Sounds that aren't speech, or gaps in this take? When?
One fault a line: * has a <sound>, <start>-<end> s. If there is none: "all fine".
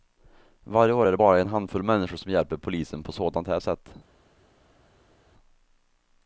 all fine